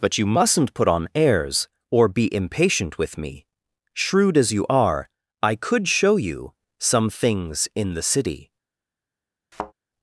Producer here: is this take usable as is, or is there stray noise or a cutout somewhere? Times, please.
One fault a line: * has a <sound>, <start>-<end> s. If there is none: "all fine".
* has a thud, 9.5-9.7 s